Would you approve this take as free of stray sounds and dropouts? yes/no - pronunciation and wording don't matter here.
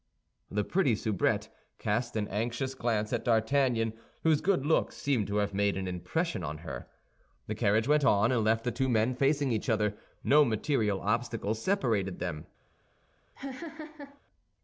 no